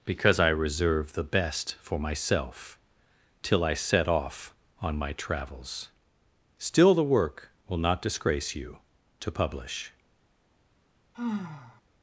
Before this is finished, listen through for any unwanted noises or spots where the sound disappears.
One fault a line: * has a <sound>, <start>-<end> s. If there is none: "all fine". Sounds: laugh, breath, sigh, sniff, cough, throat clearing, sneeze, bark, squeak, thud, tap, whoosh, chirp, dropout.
* has a sigh, 11.1-11.8 s